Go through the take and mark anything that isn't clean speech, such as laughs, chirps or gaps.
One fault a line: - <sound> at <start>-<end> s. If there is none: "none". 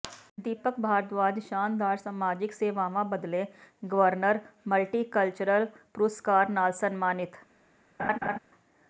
- laugh at 8.0-8.4 s